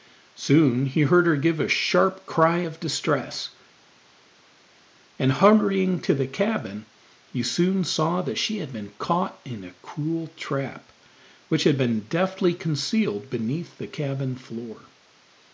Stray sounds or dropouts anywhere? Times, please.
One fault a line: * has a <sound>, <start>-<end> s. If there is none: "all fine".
all fine